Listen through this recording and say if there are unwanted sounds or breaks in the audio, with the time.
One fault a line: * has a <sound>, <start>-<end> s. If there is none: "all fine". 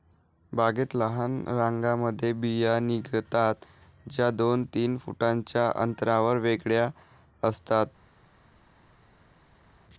all fine